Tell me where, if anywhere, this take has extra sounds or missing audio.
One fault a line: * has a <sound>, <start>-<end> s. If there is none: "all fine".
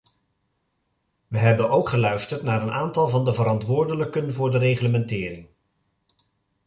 all fine